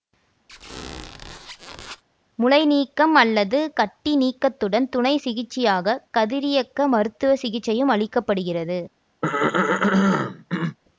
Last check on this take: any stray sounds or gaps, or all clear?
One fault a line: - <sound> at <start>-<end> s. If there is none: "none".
- squeak at 0.5-2.0 s
- throat clearing at 9.2-10.8 s